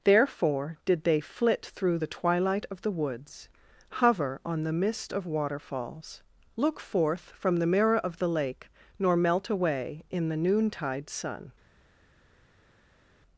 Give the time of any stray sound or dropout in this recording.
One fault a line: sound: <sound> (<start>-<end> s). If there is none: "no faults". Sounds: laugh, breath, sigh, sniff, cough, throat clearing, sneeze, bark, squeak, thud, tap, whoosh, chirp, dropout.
no faults